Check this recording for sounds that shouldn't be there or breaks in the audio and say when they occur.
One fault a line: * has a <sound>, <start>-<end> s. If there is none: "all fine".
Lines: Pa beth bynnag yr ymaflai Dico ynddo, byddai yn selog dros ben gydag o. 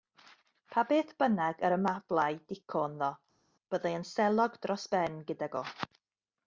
all fine